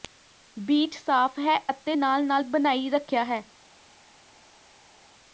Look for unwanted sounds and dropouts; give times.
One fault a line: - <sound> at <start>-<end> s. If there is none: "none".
none